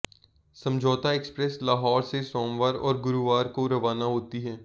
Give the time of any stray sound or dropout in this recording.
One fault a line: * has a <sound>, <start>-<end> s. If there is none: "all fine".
all fine